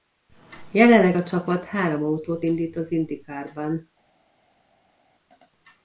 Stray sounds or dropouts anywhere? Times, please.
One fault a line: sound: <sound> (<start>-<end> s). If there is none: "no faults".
no faults